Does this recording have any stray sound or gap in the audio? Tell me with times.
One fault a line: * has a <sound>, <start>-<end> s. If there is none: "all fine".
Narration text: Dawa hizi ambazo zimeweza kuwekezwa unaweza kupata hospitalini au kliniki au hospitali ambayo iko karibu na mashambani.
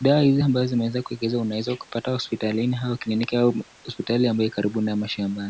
all fine